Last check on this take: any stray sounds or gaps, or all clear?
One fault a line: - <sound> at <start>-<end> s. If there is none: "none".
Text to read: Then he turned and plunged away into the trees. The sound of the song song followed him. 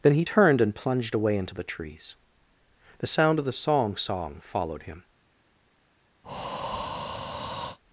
- breath at 6.2-7.8 s